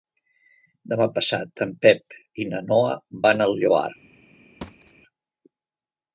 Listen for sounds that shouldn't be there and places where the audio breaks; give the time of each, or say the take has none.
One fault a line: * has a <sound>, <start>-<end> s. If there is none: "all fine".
* has a thud, 4.6-4.9 s